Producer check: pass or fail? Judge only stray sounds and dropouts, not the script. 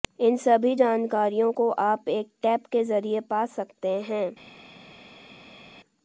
pass